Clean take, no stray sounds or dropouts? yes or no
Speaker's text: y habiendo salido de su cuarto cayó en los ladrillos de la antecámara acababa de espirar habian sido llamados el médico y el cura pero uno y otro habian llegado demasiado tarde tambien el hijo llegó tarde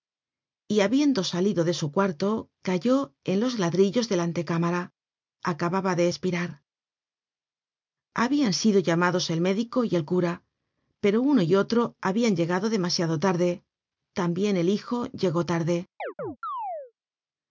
no